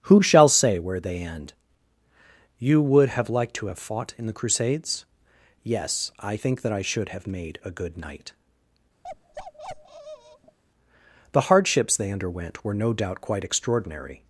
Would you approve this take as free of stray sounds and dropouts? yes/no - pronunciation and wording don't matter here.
no